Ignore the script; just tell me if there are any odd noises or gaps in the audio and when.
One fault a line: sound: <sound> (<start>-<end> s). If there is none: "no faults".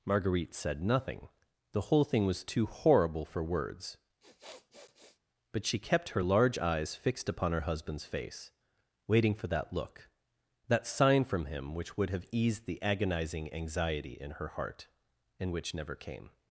sound: sniff (4.2-5.2 s)